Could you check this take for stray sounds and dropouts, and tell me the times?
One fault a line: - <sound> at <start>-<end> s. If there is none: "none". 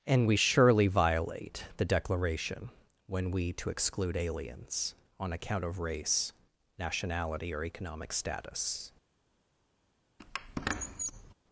- squeak at 10.2-11.3 s